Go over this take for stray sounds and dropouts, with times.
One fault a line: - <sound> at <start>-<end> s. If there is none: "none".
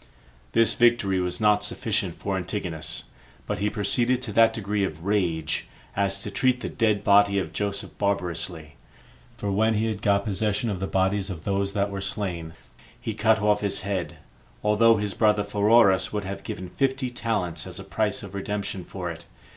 none